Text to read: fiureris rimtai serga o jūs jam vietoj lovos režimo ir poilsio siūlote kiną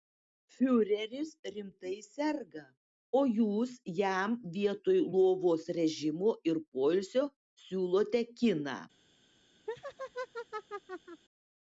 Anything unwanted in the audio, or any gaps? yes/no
yes